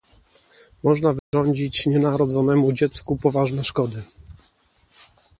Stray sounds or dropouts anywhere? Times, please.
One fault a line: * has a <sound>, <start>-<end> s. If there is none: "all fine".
* has a dropout, 1.2-1.3 s